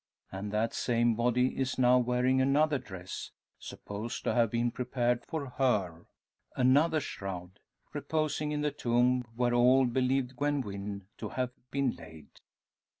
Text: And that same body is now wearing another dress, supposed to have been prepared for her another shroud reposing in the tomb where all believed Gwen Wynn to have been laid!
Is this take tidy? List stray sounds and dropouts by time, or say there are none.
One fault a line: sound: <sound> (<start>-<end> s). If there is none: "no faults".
no faults